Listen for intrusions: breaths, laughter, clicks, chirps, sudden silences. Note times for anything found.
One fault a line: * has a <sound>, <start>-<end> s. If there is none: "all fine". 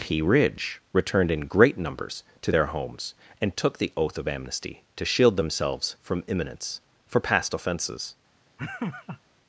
* has a laugh, 8.6-9.2 s